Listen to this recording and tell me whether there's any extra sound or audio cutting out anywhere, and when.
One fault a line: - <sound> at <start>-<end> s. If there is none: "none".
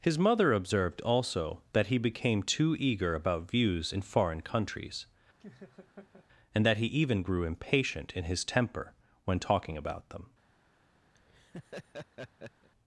- laugh at 5.4-6.3 s
- laugh at 11.1-12.7 s